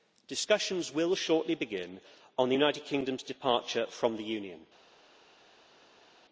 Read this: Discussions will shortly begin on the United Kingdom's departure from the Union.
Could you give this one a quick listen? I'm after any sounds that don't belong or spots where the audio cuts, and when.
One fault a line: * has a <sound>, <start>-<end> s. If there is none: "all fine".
all fine